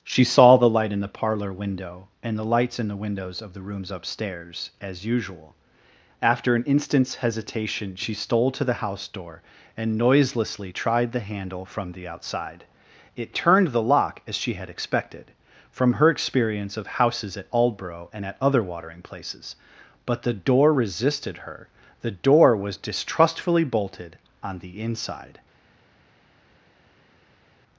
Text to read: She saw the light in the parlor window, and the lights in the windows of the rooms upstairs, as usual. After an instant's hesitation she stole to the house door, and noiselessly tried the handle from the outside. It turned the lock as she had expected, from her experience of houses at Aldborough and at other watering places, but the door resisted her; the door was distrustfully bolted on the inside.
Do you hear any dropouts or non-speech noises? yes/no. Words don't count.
no